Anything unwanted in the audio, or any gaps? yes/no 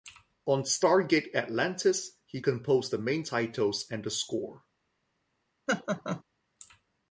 yes